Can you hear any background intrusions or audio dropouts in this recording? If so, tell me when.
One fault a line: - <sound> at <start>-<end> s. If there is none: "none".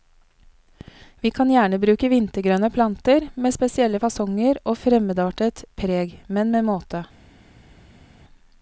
none